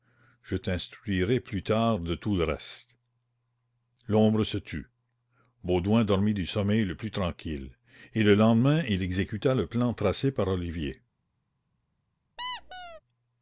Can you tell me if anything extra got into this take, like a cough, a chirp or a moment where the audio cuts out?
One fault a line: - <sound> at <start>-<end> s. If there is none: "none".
- squeak at 12.4-13.0 s